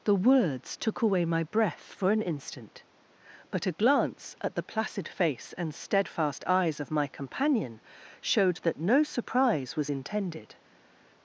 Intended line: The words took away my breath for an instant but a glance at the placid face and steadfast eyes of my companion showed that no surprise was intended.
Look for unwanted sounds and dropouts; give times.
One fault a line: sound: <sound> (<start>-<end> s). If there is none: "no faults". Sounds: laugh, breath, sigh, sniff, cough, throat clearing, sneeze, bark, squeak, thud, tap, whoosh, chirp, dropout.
no faults